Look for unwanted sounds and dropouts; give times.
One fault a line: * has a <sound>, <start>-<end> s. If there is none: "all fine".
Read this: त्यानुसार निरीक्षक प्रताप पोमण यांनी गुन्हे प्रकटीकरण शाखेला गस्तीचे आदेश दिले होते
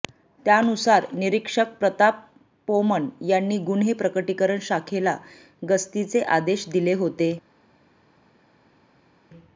all fine